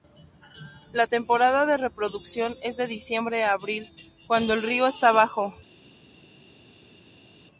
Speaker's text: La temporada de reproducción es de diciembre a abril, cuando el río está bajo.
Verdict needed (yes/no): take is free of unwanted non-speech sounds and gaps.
yes